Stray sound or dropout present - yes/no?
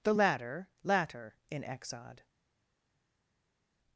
no